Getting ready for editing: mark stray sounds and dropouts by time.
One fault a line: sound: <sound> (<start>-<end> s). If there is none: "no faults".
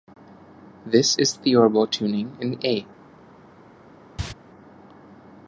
sound: cough (4.2-4.3 s)